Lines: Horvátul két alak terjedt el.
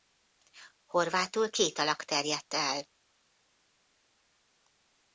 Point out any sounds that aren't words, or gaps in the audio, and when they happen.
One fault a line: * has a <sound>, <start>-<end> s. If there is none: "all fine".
all fine